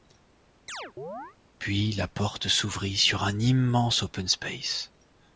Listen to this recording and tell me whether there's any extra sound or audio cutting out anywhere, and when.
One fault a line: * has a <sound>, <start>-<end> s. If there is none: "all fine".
* has a chirp, 0.7-1.4 s